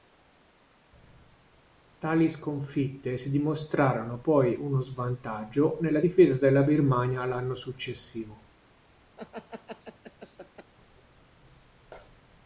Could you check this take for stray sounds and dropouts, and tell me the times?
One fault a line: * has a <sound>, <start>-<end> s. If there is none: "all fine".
* has a laugh, 9.2-10.7 s